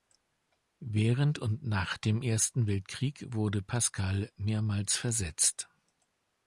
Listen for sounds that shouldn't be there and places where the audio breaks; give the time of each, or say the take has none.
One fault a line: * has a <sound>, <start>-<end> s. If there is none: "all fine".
all fine